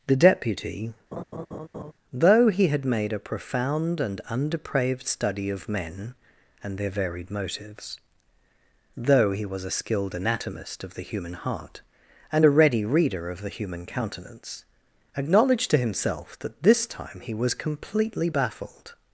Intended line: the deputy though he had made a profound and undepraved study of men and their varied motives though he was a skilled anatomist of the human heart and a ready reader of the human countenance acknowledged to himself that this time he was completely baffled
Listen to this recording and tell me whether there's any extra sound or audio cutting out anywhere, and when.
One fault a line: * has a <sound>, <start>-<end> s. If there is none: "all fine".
* has a laugh, 1.1-1.9 s